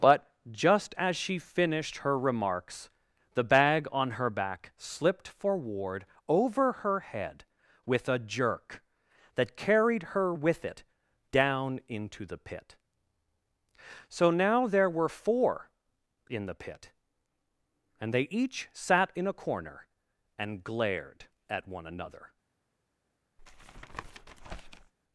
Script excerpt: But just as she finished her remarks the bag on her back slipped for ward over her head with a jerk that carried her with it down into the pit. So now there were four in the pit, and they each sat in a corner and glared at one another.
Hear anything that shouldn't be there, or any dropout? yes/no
yes